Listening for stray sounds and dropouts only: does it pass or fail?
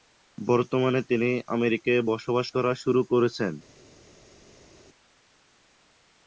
pass